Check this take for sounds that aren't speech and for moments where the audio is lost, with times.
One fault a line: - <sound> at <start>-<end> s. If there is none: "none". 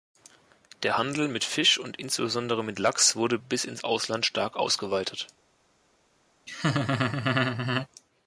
- laugh at 6.5-7.9 s